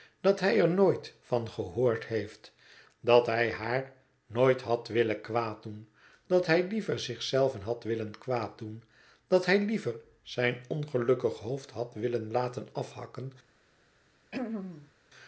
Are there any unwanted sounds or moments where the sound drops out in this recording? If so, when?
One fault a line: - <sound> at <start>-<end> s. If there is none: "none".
- throat clearing at 14.3-14.9 s